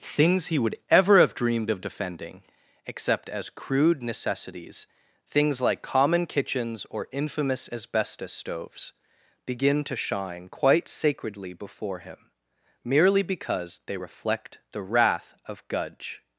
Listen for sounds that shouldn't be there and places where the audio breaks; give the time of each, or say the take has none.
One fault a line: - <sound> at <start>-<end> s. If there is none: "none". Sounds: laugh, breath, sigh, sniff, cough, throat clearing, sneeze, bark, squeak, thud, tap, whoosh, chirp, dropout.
none